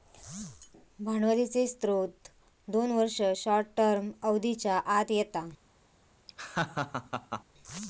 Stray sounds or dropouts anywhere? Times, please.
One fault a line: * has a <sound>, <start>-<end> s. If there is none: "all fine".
* has a laugh, 6.3-7.4 s